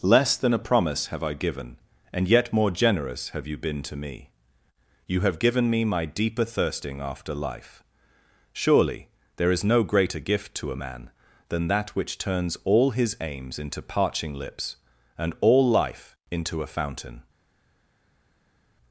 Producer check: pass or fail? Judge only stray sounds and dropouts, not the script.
pass